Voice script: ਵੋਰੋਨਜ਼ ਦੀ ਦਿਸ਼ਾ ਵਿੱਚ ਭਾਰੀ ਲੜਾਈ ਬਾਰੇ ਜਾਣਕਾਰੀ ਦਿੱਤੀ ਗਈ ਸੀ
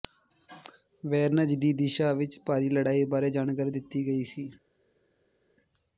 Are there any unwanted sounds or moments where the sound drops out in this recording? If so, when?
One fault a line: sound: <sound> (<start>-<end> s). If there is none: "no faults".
no faults